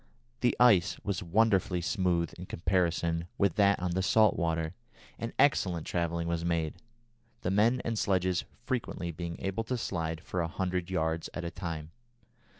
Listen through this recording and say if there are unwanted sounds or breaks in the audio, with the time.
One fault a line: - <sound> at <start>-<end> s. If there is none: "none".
none